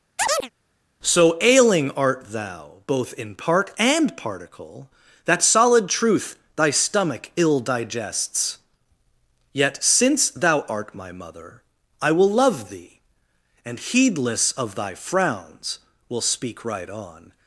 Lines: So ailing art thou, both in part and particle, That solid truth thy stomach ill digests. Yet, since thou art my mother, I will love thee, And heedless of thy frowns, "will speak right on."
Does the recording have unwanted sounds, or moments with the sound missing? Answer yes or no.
yes